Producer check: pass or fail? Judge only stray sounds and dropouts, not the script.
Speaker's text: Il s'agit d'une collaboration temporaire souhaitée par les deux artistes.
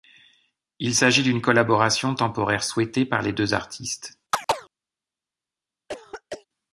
fail